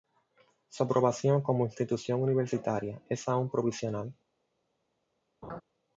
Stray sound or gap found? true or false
true